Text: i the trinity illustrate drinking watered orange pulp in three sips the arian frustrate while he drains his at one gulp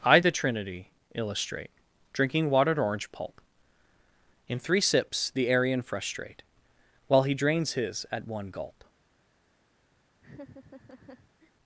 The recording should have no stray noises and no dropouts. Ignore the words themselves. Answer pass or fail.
fail